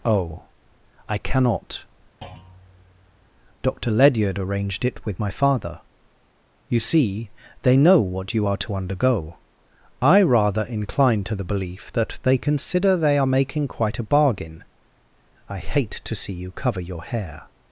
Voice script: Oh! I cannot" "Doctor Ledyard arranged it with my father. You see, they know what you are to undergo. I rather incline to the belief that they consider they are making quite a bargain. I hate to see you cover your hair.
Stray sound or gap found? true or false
true